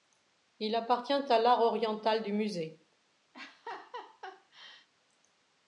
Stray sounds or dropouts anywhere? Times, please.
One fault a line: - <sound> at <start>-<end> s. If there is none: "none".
- laugh at 3.3-4.9 s